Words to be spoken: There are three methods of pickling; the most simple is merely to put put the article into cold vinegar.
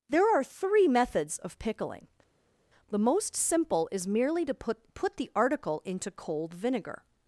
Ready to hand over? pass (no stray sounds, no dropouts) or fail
pass